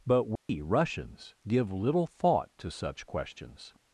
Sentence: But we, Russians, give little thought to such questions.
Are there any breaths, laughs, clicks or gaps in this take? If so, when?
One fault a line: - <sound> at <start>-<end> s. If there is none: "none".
- dropout at 0.4-0.5 s